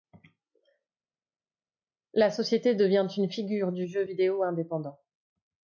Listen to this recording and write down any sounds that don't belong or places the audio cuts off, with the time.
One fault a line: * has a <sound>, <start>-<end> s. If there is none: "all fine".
all fine